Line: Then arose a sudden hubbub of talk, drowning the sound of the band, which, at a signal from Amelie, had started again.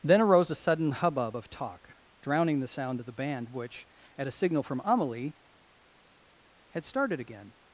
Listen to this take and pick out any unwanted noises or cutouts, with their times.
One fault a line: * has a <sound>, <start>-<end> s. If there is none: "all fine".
all fine